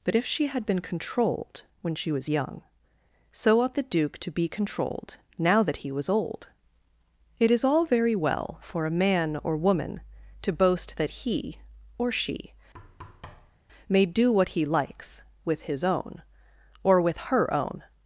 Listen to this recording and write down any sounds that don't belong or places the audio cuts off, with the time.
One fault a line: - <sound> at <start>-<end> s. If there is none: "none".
- thud at 12.7-13.6 s